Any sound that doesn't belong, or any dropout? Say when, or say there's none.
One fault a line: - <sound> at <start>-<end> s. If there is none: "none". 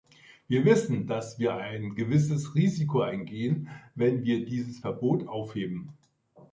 none